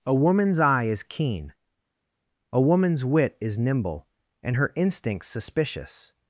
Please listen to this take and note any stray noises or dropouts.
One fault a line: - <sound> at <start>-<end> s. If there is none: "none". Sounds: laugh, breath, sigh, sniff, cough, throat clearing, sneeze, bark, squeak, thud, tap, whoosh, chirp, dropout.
none